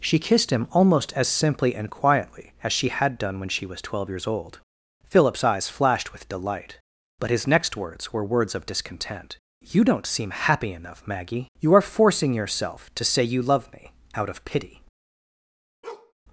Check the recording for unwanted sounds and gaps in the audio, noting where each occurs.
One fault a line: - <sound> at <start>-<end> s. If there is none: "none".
- bark at 15.8-16.1 s